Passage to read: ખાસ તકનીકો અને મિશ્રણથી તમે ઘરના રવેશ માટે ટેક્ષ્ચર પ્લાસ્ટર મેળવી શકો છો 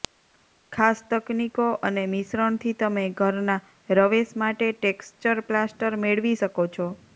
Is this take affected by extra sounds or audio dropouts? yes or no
no